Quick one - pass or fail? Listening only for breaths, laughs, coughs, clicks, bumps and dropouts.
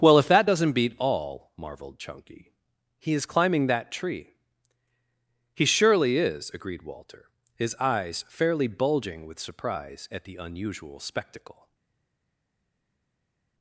pass